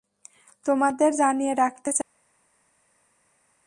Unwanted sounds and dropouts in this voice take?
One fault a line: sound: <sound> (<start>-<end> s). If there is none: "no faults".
no faults